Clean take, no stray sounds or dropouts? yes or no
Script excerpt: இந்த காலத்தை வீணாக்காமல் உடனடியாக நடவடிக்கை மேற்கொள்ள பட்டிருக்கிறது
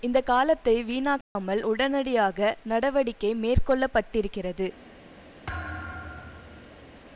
no